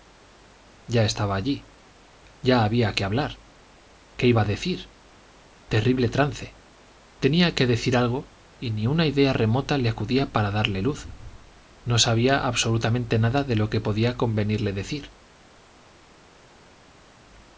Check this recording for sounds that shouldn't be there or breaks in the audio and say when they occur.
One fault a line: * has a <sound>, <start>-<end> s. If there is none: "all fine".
all fine